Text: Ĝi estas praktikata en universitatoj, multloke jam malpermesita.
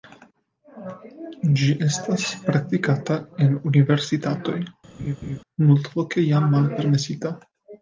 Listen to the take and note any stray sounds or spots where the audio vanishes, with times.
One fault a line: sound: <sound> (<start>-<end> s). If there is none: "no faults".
sound: laugh (5.0-5.4 s)